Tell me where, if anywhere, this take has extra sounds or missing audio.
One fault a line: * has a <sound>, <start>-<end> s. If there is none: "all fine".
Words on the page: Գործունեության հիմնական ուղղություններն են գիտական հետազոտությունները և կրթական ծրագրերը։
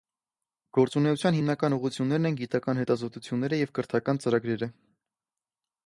all fine